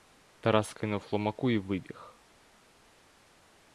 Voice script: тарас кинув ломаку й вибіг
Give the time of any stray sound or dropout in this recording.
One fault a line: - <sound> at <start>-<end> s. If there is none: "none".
none